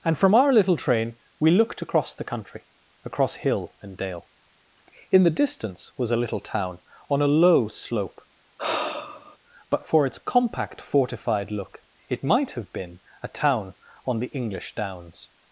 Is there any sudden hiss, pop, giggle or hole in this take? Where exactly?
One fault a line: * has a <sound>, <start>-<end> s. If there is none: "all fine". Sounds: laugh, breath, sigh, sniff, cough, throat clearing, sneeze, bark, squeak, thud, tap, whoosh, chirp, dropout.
* has a sigh, 8.6-9.4 s